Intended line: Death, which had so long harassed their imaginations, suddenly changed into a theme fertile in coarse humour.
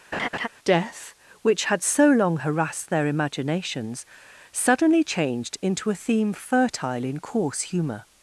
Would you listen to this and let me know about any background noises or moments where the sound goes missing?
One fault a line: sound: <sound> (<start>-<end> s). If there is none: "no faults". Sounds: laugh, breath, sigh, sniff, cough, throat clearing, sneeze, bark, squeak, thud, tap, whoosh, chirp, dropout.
sound: laugh (0.1-0.5 s)